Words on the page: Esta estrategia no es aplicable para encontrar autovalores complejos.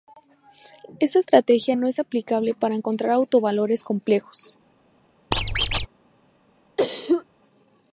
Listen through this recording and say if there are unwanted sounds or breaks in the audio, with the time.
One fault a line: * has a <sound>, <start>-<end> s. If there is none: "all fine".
* has a squeak, 5.3-5.9 s
* has a cough, 6.8-7.2 s